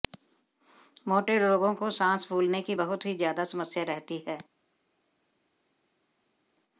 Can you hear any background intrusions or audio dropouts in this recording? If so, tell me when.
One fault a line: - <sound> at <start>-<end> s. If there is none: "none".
none